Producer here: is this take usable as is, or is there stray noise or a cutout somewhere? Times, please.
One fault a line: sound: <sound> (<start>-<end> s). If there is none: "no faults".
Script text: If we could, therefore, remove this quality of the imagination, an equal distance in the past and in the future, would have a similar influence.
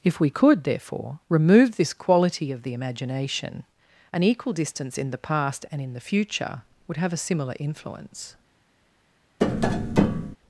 sound: tap (9.4-10.4 s)